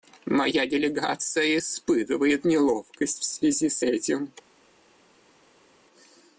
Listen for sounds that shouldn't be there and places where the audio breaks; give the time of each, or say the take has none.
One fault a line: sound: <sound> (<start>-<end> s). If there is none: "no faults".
no faults